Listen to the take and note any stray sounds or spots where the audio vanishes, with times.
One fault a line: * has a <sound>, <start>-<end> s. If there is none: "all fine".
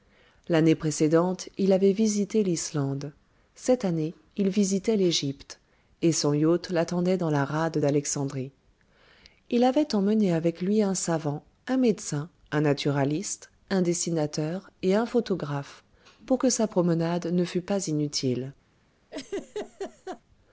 * has a laugh, 19.1-20.2 s